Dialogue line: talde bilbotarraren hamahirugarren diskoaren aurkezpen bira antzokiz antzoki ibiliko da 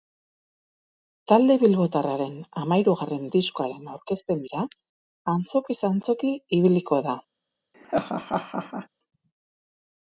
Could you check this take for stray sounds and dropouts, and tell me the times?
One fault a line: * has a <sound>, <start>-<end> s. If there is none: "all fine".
* has a laugh, 7.7-8.9 s